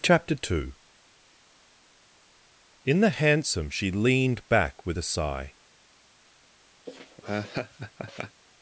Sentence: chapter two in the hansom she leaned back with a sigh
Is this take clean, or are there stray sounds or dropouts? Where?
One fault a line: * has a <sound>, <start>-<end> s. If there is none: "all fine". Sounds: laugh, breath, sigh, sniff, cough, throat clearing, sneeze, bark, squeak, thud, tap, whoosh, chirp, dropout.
* has a laugh, 6.9-8.4 s